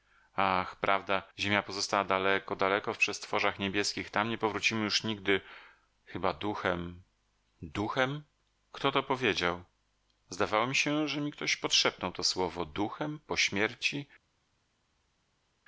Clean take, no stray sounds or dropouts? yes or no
yes